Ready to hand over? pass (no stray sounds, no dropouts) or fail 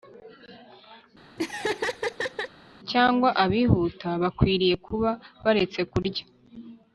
fail